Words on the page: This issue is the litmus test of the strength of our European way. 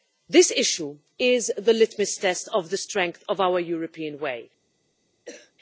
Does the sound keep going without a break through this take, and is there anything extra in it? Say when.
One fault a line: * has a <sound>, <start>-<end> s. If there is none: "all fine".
* has a cough, 5.3-5.5 s